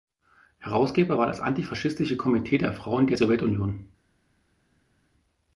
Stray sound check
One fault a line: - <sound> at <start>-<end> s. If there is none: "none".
none